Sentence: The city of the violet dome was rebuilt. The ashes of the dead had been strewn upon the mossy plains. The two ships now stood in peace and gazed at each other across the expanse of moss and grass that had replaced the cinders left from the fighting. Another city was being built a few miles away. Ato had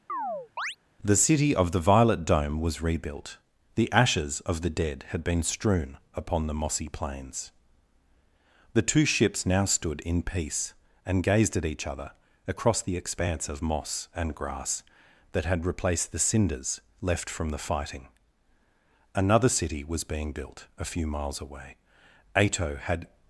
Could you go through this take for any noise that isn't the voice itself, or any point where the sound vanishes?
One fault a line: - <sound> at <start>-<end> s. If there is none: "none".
- chirp at 0.1-0.8 s